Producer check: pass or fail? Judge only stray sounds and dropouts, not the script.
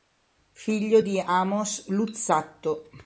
pass